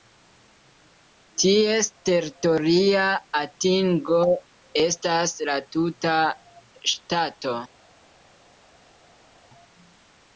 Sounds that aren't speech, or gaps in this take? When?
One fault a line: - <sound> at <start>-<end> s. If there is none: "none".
none